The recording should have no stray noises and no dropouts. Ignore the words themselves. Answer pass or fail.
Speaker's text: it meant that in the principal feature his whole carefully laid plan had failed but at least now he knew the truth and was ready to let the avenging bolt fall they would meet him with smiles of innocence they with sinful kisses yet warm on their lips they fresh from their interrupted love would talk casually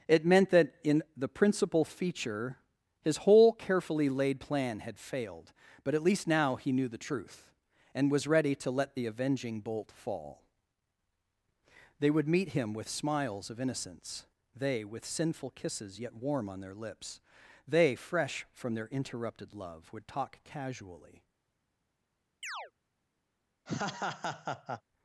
fail